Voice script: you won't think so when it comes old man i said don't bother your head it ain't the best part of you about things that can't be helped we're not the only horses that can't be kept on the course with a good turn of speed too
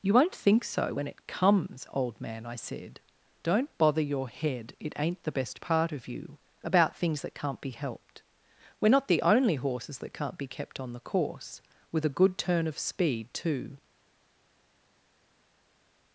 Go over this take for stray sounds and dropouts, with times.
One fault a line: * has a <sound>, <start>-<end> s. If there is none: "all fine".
all fine